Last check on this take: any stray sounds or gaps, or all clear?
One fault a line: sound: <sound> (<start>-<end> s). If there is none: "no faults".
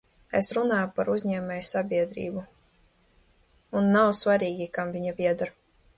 no faults